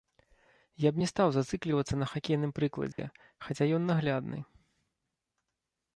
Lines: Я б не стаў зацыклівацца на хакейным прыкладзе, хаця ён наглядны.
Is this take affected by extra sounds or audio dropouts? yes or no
yes